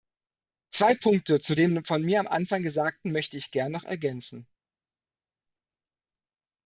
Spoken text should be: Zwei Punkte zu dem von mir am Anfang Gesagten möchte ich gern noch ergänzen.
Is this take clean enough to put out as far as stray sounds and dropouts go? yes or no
yes